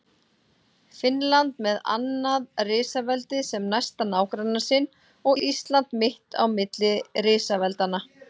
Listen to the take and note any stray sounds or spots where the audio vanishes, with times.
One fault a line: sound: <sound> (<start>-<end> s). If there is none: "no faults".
no faults